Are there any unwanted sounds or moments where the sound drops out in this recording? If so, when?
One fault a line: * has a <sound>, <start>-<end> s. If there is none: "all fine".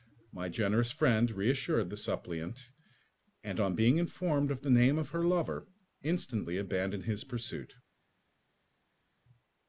all fine